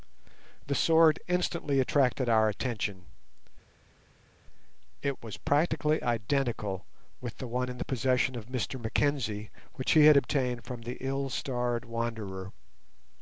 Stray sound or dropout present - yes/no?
no